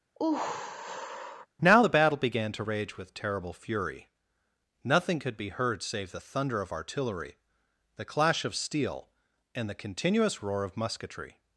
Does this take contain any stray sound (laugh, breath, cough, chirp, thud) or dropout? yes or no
yes